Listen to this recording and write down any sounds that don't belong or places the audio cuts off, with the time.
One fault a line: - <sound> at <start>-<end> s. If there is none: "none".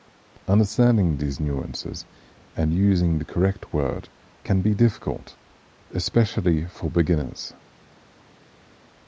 none